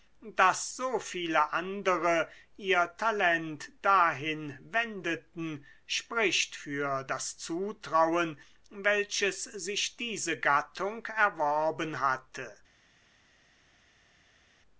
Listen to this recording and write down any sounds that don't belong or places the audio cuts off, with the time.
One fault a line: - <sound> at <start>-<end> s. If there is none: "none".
none